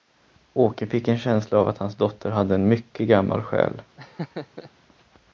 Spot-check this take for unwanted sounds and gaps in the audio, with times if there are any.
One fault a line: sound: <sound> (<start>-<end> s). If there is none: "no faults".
sound: laugh (4.0-4.7 s)